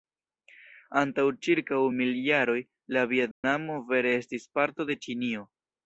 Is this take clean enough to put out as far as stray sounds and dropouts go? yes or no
no